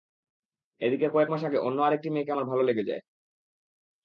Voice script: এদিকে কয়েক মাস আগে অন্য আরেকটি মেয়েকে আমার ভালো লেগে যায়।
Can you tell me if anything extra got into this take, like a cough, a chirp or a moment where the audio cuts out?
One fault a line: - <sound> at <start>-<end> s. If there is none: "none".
none